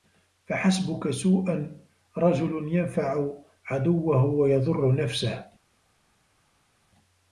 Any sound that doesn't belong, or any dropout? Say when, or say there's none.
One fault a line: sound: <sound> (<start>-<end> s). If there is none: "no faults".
no faults